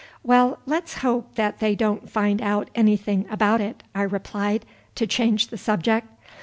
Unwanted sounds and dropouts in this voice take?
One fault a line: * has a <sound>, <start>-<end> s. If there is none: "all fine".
all fine